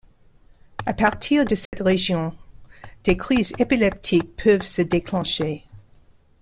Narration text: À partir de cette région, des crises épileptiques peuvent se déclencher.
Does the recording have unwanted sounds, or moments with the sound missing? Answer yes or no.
yes